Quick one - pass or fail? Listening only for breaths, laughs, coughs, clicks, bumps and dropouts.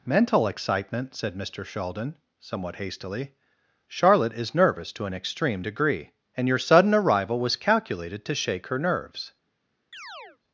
fail